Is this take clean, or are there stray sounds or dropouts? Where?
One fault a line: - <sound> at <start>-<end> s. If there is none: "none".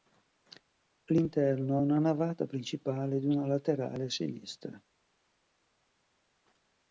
none